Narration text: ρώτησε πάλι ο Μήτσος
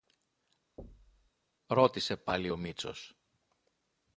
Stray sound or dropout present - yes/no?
yes